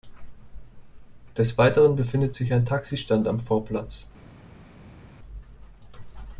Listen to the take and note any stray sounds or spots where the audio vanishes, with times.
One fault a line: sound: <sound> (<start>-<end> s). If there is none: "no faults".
no faults